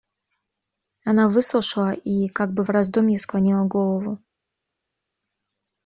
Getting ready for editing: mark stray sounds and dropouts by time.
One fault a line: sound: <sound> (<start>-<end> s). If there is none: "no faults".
no faults